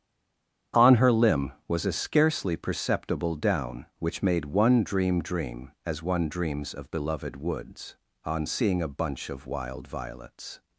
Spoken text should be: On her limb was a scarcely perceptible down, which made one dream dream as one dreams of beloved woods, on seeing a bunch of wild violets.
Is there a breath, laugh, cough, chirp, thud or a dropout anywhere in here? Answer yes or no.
no